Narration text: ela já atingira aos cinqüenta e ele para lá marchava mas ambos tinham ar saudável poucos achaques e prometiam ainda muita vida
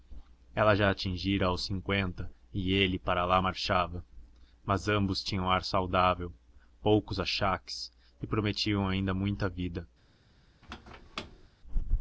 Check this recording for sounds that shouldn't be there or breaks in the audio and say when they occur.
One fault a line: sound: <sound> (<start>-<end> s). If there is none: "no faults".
sound: squeak (10.6-11.5 s)